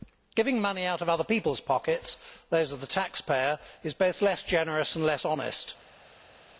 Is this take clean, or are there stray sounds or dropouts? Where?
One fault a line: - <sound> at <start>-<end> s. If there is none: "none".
none